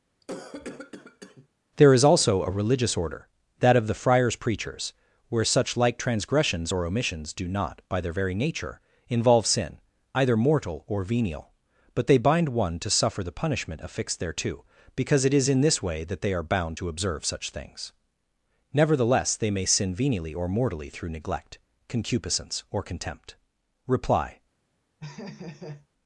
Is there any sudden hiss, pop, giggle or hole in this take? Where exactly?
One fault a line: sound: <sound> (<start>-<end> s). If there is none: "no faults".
sound: cough (0.2-1.5 s)
sound: laugh (25.0-25.9 s)